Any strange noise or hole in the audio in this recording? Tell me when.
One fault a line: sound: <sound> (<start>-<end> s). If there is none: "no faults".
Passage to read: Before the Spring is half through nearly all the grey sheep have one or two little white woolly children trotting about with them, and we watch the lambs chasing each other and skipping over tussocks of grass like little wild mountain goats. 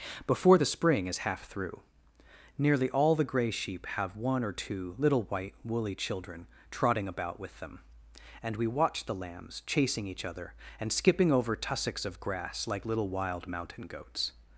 no faults